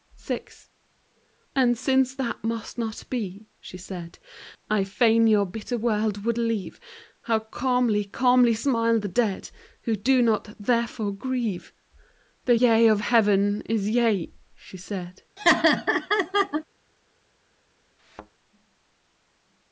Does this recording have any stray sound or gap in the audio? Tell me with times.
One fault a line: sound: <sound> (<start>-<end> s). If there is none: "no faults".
sound: laugh (15.4-16.6 s)
sound: thud (18.0-18.3 s)